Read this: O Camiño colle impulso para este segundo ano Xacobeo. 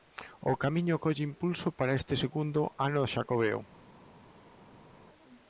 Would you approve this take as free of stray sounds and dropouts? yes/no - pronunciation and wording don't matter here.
yes